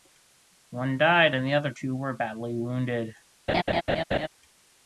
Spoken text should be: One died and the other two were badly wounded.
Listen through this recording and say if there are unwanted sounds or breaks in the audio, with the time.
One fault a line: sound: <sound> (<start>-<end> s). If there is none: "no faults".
sound: laugh (3.5-4.3 s)